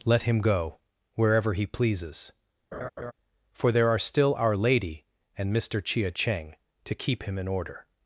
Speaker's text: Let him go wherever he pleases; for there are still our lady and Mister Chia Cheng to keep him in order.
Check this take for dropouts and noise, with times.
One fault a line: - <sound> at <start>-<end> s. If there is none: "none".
- laugh at 2.7-3.1 s